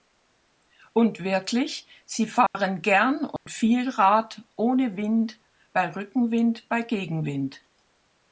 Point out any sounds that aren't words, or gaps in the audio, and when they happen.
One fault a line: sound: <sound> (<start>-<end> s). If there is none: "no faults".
sound: dropout (2.5-2.5 s)
sound: dropout (3.4-3.5 s)